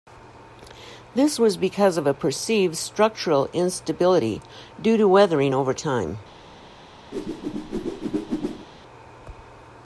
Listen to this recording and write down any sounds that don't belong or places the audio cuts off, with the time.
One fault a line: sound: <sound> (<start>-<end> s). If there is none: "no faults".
sound: whoosh (7.1-8.7 s)